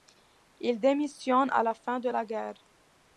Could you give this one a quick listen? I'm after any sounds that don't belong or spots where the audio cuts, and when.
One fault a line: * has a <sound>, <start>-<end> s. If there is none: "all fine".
all fine